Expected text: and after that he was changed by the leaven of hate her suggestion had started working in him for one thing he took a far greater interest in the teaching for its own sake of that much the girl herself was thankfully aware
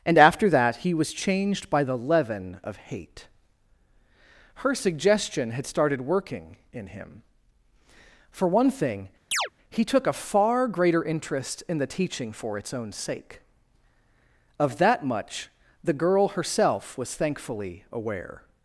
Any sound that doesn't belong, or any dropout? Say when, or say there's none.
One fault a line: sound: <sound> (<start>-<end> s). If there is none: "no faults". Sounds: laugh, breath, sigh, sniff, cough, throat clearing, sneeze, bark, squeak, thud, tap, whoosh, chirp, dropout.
sound: chirp (9.3-9.5 s)